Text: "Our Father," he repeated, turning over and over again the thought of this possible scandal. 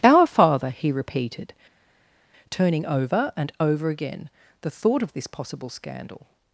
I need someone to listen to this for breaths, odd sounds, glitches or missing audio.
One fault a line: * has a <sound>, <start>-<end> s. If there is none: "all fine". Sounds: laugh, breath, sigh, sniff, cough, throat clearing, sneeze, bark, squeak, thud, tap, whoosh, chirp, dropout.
all fine